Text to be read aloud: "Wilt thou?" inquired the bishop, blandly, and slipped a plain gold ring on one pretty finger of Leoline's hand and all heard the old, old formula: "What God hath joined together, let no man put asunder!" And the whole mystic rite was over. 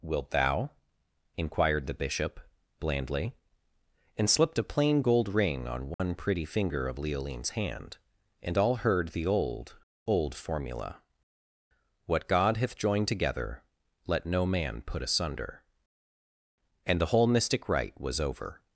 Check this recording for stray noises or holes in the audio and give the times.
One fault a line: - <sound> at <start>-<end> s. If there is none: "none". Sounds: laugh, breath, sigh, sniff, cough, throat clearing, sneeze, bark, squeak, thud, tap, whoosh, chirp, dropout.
- dropout at 5.9-6.0 s